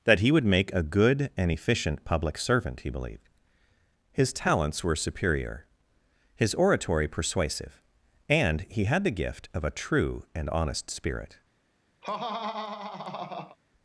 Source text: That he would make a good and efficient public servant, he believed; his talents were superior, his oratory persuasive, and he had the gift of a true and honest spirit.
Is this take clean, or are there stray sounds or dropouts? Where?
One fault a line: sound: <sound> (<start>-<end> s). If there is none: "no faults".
sound: laugh (12.0-13.6 s)